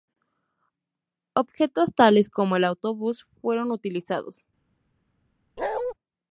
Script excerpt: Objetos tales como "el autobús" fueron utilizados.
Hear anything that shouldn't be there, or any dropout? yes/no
yes